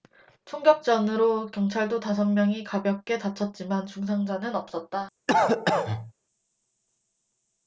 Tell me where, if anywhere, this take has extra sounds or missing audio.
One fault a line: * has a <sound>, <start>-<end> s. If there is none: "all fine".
* has a cough, 5.3-6.1 s